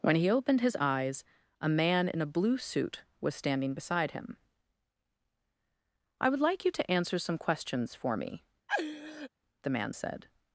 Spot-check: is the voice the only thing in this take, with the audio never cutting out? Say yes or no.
no